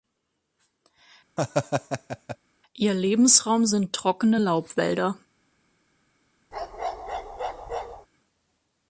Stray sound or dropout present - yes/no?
yes